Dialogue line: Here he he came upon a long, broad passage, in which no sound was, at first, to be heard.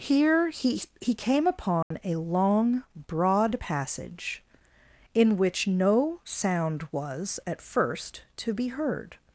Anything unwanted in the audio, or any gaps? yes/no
yes